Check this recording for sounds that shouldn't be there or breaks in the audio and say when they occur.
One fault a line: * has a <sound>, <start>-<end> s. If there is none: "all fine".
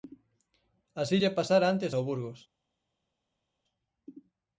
all fine